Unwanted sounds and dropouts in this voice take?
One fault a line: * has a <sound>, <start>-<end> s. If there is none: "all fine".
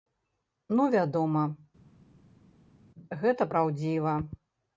all fine